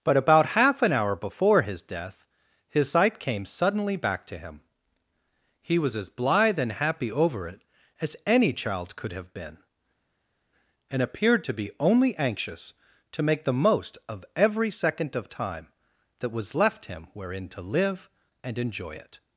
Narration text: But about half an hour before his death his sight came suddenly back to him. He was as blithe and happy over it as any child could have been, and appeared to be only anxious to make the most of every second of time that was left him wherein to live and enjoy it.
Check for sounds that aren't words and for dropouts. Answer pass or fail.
pass